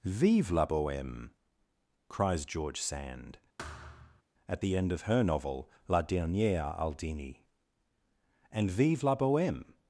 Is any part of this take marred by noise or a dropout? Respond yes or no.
yes